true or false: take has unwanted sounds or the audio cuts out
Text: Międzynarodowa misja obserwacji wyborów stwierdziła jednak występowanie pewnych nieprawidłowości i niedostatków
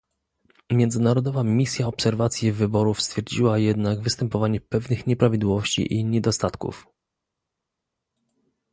false